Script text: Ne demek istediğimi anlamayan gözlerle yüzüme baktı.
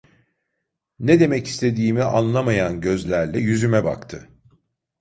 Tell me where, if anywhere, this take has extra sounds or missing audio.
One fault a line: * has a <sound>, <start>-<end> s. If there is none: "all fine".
all fine